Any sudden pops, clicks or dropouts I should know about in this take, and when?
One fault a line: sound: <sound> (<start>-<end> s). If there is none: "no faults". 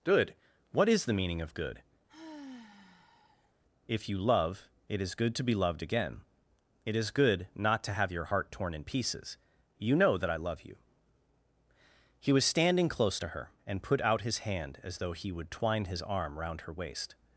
sound: sigh (2.1-3.5 s)